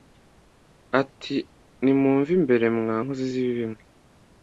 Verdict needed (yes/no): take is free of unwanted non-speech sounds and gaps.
yes